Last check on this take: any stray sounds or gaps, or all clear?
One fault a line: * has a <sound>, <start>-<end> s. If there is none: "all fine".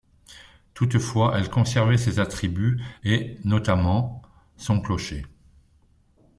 all fine